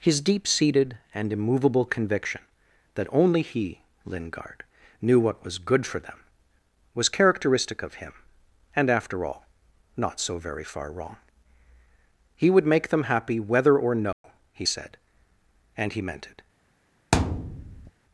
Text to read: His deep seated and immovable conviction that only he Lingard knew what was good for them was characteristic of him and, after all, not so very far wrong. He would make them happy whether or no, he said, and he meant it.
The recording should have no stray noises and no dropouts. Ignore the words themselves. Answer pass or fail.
fail